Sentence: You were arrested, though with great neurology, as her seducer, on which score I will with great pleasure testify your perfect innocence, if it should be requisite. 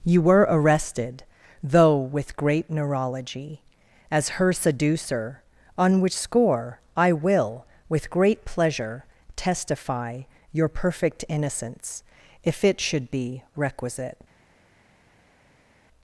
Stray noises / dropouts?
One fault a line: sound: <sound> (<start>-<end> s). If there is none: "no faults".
no faults